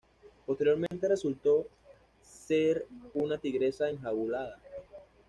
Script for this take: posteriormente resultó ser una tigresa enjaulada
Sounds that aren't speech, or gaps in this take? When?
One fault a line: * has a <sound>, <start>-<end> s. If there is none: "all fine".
* has a dropout, 0.9-0.9 s